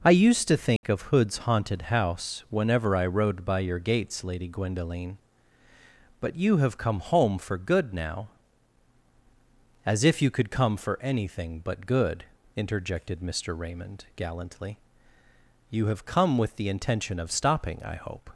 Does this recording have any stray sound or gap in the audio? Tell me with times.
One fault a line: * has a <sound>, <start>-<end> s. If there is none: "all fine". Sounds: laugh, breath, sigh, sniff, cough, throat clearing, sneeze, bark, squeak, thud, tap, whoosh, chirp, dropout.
* has a dropout, 0.8-0.8 s